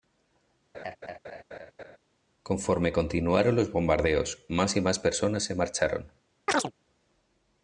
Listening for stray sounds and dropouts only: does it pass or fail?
fail